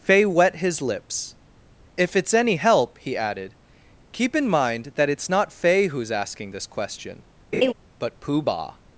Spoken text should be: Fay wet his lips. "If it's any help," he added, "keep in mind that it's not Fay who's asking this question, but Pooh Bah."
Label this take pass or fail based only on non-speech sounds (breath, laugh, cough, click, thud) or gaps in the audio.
fail